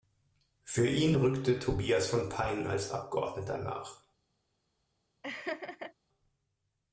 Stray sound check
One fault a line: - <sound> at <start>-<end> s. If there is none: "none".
- laugh at 5.2-5.9 s